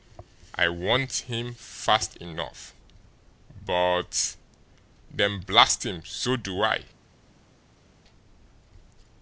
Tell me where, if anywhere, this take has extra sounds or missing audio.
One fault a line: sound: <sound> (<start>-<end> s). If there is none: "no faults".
no faults